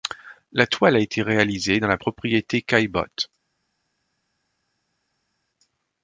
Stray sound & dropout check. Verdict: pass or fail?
pass